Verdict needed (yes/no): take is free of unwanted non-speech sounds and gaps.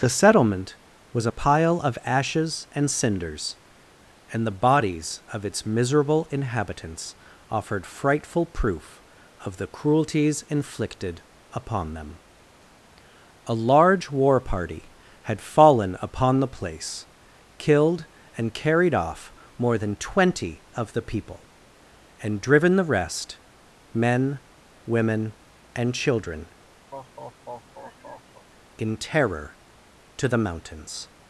no